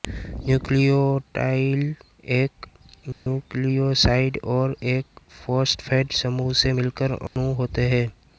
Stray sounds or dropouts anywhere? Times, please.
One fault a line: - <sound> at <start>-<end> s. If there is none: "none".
- dropout at 3.1-3.3 s
- dropout at 7.3-7.4 s